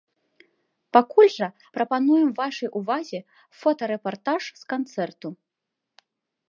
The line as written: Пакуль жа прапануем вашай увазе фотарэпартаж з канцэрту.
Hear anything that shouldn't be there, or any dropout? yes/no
no